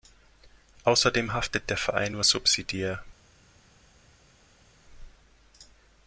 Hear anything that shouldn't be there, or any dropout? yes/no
no